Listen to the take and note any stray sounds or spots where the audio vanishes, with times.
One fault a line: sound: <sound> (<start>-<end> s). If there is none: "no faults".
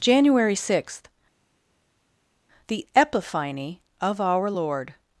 no faults